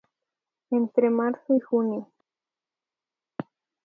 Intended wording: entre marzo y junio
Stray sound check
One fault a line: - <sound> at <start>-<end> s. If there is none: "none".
none